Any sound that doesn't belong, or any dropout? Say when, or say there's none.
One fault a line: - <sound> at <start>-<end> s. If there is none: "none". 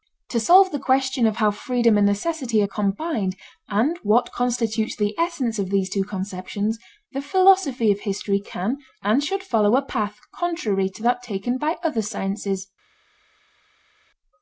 none